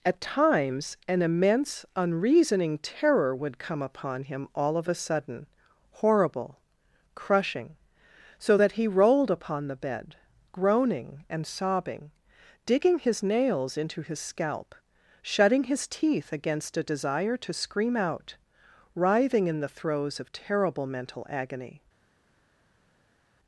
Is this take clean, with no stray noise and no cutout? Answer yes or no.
yes